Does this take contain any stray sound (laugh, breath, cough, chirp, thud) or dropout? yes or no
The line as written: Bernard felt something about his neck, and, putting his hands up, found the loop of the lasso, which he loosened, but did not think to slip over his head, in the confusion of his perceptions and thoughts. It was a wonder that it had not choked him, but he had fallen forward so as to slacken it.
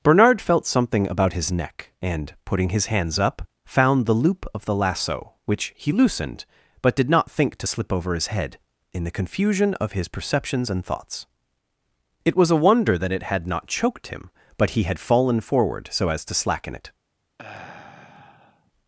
yes